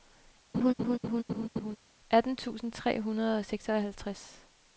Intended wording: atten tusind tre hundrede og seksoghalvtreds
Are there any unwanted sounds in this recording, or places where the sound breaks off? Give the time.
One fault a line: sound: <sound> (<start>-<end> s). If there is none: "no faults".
sound: laugh (0.5-1.8 s)